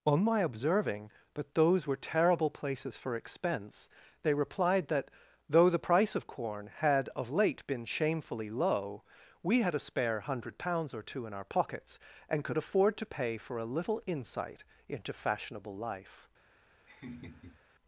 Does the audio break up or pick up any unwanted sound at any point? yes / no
yes